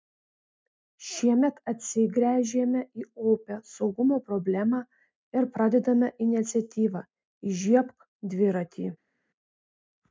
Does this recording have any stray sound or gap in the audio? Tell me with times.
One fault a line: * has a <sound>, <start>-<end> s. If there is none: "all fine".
all fine